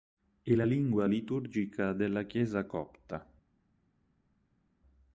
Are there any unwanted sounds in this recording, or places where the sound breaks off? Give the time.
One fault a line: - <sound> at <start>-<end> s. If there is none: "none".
none